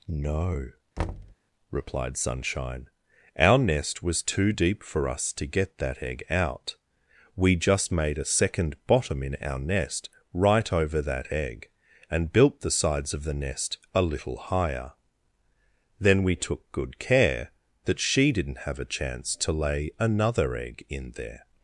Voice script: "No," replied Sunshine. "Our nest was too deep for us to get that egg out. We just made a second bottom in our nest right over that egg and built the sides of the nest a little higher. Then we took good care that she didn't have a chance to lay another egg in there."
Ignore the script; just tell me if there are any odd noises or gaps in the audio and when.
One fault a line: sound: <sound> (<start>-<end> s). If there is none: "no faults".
sound: thud (1.0-1.4 s)